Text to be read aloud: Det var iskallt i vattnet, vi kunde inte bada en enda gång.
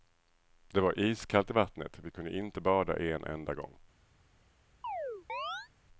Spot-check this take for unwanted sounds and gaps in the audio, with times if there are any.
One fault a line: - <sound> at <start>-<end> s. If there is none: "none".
- chirp at 4.8-5.7 s